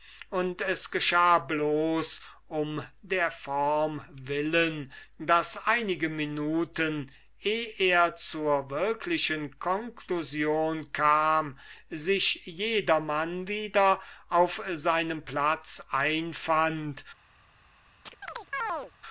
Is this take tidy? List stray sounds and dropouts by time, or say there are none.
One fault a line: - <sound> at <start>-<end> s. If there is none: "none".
- chirp at 18.1-18.9 s